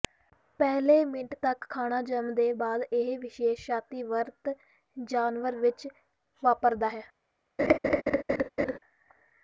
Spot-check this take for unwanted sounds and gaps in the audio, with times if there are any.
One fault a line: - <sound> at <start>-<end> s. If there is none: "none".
- laugh at 7.6-8.8 s